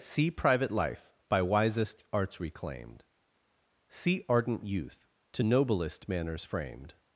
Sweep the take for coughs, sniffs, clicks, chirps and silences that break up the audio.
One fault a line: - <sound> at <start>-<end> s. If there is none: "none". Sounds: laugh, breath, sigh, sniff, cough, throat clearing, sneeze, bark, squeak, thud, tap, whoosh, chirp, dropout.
none